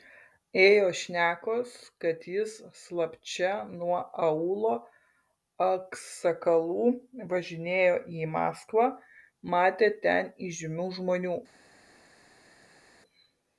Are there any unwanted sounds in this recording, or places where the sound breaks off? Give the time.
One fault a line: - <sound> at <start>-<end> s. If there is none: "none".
none